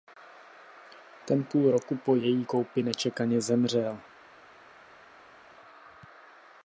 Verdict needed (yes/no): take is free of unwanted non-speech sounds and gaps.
yes